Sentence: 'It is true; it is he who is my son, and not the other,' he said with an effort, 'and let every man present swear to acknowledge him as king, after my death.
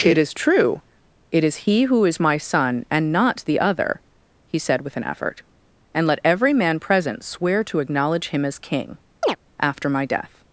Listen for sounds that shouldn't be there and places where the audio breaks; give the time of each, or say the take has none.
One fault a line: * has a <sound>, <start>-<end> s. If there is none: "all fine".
* has a chirp, 9.2-9.4 s